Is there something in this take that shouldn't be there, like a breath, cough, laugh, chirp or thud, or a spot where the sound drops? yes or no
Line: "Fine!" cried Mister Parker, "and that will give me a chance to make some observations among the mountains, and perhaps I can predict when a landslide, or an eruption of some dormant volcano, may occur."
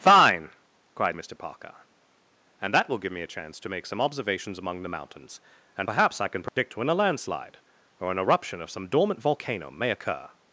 yes